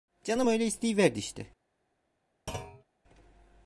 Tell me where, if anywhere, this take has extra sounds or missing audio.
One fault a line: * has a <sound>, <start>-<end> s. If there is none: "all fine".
* has a thud, 2.5-2.8 s